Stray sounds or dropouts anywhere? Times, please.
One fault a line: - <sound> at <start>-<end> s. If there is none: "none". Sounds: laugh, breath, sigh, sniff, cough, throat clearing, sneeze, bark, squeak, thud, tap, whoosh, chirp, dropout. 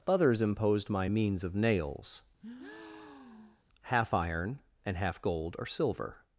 - breath at 2.4-3.6 s